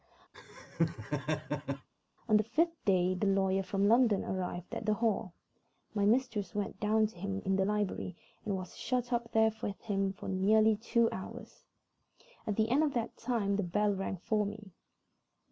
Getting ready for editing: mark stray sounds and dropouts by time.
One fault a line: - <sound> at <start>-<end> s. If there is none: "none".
- laugh at 0.3-1.9 s